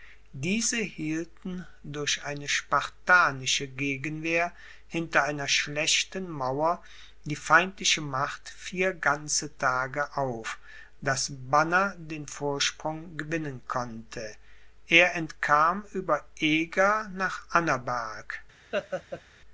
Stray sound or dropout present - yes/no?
yes